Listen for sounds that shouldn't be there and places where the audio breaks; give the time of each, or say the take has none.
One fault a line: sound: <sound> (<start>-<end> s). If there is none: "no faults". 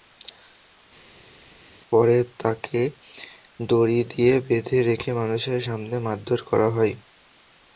no faults